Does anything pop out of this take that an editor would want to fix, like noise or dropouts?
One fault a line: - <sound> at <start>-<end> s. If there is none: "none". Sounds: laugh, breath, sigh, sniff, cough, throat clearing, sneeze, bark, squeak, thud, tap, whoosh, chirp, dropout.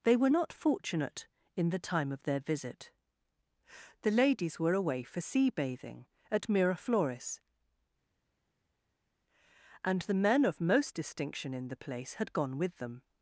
none